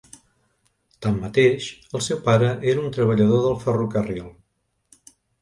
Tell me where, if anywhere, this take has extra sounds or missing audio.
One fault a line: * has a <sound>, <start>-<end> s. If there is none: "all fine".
all fine